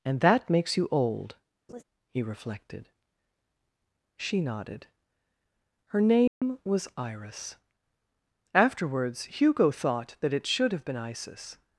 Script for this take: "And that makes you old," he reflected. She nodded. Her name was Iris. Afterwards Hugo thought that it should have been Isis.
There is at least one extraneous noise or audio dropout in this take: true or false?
true